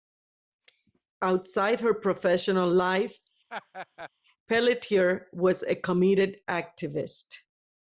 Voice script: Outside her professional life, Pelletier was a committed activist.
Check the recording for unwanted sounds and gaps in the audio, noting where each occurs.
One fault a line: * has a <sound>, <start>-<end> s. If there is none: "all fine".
* has a laugh, 3.5-4.1 s